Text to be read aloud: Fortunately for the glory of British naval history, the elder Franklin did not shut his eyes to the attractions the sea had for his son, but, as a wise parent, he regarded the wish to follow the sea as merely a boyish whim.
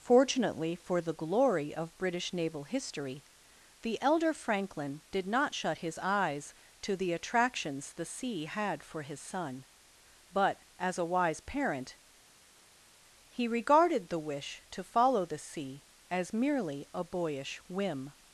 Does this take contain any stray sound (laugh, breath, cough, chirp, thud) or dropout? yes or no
no